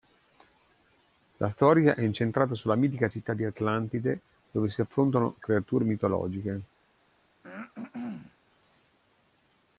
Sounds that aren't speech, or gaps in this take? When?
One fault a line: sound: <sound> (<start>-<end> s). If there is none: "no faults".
sound: throat clearing (7.4-8.4 s)